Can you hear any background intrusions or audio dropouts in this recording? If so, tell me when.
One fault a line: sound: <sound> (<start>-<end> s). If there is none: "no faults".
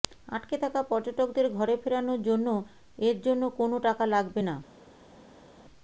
no faults